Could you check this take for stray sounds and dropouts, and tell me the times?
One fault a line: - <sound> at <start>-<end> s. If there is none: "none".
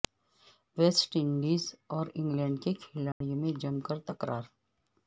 - dropout at 3.1-3.2 s